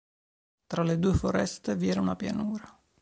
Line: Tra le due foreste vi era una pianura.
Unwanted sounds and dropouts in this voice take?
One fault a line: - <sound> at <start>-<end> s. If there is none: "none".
none